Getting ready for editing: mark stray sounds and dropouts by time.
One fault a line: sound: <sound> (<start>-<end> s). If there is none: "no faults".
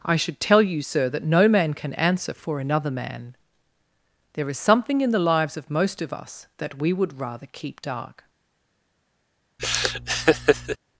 sound: laugh (9.6-10.8 s)